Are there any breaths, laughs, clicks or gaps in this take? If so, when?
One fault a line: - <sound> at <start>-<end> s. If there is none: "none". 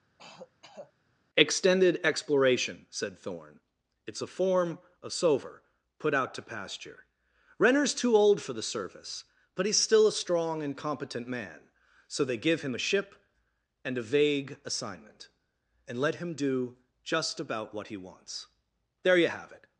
- throat clearing at 0.2-0.9 s